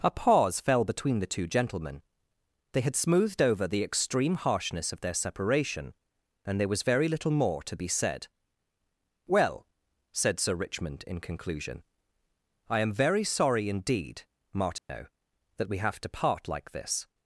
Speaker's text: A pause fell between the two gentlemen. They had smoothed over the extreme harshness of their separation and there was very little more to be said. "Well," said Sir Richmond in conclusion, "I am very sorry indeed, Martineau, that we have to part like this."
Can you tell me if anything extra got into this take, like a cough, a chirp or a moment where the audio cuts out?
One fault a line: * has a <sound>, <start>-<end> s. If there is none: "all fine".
* has a dropout, 14.8-14.9 s